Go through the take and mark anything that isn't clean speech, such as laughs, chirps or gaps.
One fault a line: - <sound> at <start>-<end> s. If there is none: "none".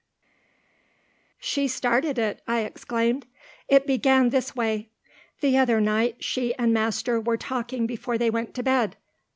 none